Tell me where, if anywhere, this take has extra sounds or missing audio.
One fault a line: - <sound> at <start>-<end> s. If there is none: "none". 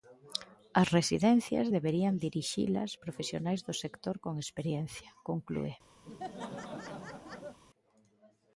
- laugh at 6.0-7.6 s